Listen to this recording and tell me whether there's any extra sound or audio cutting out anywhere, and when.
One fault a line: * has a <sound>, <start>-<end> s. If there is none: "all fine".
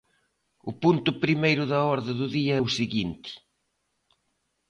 all fine